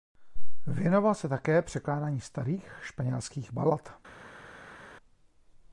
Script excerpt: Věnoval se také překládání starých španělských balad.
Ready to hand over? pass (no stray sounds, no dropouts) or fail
pass